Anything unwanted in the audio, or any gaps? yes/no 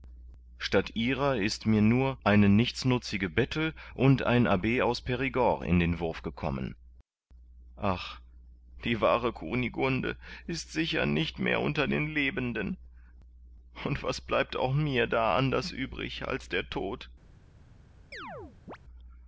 yes